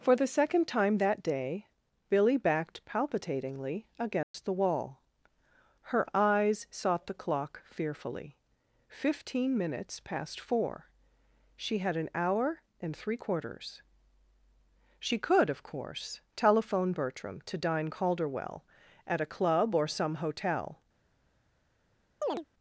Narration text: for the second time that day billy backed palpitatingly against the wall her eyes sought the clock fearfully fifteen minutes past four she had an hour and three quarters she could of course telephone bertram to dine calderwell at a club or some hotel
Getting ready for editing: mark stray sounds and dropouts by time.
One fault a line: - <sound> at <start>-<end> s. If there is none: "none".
- dropout at 4.2-4.3 s
- chirp at 22.2-22.4 s